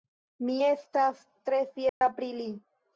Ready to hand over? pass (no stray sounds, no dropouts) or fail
fail